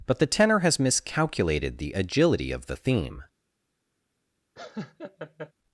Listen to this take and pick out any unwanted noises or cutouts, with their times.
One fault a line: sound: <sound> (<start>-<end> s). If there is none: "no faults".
sound: laugh (4.6-5.5 s)